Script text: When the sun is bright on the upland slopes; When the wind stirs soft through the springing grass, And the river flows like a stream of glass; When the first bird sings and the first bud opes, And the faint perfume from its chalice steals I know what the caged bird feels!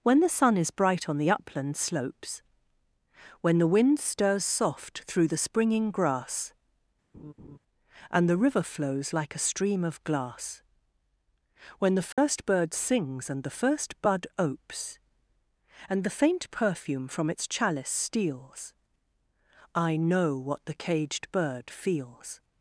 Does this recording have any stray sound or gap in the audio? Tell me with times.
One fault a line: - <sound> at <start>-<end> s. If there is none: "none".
- laugh at 7.1-7.6 s
- dropout at 12.1-12.2 s